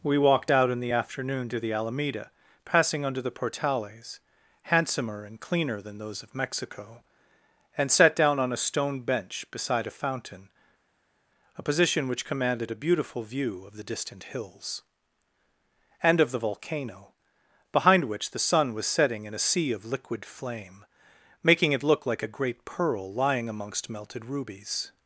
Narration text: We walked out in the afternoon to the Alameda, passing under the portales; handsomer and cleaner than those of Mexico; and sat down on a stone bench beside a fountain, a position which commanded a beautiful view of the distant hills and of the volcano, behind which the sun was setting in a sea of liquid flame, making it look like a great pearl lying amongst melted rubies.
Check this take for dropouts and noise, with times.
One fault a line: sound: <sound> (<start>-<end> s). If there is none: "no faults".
no faults